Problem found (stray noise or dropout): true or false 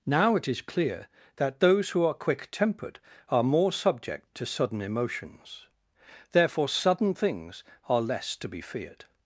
false